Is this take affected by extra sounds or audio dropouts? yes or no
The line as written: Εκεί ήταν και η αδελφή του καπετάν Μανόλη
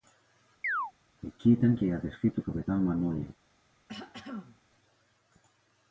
yes